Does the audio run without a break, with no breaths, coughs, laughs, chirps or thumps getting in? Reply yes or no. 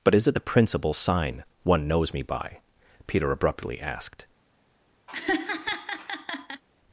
no